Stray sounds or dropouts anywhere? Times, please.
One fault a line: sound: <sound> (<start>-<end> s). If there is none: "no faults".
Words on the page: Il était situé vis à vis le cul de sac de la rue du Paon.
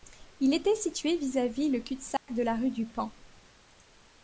sound: dropout (2.2-2.3 s)